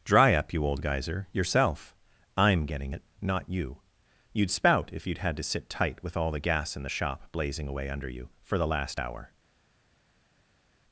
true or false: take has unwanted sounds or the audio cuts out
false